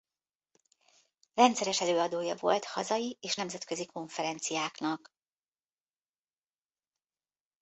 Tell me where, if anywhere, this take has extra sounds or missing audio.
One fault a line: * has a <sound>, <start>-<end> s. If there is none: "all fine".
all fine